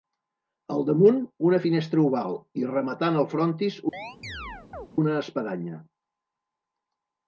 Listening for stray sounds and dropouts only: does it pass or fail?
fail